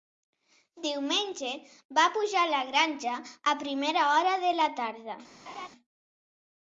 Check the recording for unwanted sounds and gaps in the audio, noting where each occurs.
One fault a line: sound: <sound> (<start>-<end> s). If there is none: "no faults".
sound: laugh (5.5-5.7 s)